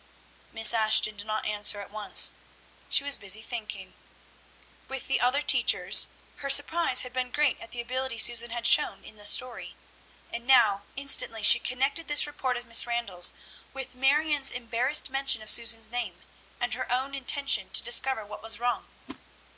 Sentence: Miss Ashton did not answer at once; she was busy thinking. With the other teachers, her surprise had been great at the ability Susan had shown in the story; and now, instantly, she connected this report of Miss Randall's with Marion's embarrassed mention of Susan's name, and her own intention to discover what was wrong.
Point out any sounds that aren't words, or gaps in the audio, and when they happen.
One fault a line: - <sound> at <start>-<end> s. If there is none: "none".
- whoosh at 19.1-19.2 s